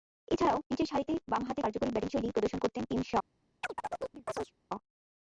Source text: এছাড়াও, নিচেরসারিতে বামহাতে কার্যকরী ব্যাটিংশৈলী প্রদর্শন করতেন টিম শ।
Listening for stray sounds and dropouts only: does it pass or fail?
fail